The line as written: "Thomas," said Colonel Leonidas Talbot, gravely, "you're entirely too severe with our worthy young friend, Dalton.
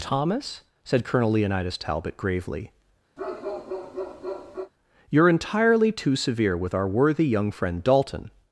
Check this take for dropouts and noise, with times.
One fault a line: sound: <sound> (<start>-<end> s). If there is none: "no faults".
sound: bark (3.2-4.7 s)